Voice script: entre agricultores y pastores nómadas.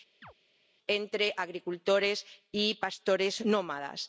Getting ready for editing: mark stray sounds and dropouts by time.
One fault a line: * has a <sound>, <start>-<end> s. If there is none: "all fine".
* has a chirp, 0.2-0.3 s